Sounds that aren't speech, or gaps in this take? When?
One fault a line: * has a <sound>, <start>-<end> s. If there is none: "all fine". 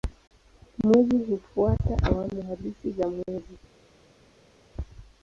all fine